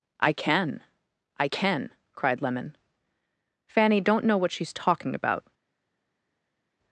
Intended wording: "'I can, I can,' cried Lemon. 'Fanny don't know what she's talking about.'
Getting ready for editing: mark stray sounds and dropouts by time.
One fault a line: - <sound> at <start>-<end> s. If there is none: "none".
none